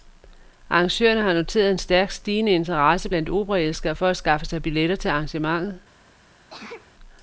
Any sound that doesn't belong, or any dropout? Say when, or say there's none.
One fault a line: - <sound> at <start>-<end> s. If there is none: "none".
- sneeze at 6.5-6.9 s